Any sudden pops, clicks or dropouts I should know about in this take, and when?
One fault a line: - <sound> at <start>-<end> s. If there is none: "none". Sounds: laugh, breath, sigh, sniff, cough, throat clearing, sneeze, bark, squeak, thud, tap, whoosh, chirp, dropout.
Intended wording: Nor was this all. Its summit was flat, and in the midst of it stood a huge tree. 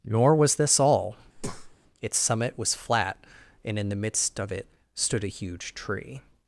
- breath at 1.3-1.8 s